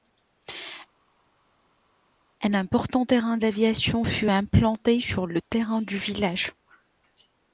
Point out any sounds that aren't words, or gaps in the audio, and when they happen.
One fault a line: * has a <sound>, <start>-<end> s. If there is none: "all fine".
all fine